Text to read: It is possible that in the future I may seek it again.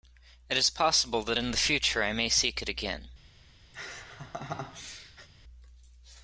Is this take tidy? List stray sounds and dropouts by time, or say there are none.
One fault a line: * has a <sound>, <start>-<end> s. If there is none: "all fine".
* has a laugh, 3.7-5.3 s